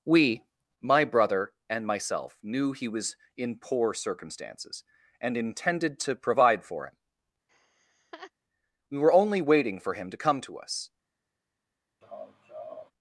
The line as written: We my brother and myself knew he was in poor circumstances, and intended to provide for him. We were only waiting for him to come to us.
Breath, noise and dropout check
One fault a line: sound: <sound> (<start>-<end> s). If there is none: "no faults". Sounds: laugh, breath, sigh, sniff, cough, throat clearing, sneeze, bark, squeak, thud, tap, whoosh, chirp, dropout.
sound: laugh (7.5-8.3 s)
sound: laugh (12.0-12.9 s)